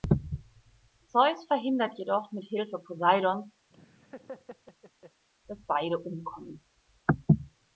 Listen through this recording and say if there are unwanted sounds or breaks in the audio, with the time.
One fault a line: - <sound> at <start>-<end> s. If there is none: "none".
- laugh at 3.7-5.2 s